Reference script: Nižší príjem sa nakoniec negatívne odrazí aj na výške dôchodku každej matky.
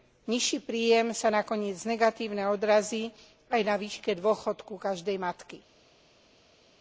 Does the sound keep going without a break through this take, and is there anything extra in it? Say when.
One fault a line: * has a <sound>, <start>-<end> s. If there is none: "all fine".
all fine